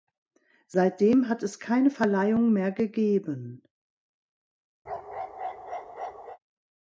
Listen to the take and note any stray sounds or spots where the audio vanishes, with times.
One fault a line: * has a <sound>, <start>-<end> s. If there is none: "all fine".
* has a bark, 4.9-6.4 s